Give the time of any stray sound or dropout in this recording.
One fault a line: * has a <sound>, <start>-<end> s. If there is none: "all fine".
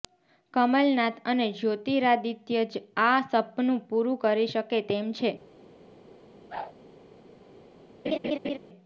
* has a whoosh, 6.5-6.7 s
* has a laugh, 8.0-8.6 s